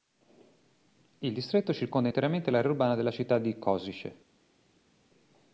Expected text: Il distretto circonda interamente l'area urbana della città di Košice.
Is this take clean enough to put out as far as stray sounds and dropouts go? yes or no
yes